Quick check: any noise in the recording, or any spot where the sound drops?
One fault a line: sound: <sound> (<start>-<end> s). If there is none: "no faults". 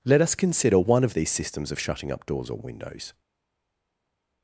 no faults